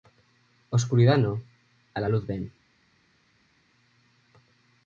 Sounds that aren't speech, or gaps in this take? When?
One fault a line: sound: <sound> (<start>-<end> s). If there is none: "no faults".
no faults